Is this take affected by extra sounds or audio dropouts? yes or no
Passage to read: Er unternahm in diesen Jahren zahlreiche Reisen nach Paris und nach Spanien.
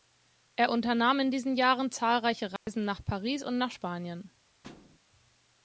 yes